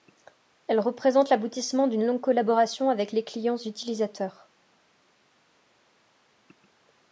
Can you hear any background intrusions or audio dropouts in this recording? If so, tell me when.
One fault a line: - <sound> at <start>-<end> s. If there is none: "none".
none